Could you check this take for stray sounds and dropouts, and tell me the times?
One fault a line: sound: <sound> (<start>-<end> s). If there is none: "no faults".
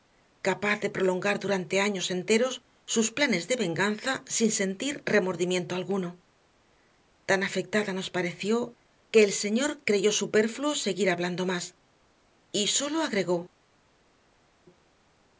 no faults